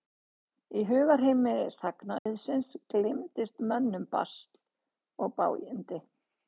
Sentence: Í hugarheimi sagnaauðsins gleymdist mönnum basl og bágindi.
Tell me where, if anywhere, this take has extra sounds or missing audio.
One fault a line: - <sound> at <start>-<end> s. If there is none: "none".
- dropout at 2.2-2.3 s